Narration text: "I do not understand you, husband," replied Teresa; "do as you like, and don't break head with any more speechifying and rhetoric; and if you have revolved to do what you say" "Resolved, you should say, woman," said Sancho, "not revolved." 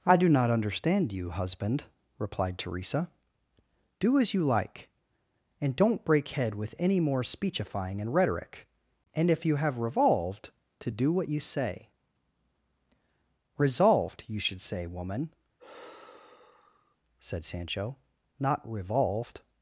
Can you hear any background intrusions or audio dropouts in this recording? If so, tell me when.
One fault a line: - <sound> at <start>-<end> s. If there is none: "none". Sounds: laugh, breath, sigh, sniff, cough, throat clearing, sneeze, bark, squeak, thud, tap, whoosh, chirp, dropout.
- sigh at 15.6-17.0 s